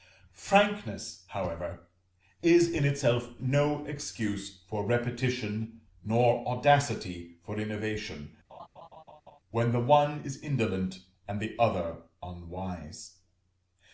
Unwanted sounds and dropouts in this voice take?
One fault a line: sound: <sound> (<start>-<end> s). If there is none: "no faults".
sound: laugh (8.5-9.4 s)